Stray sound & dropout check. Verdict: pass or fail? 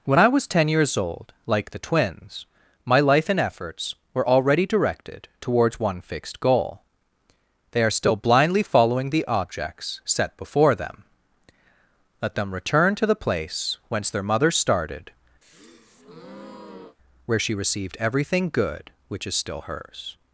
fail